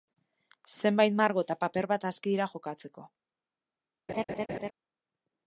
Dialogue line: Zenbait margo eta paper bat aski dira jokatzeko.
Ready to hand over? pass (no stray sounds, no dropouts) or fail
fail